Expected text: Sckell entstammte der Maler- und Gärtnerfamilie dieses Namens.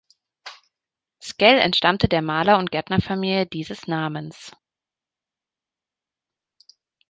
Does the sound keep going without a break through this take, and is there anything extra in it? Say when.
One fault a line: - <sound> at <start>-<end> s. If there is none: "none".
none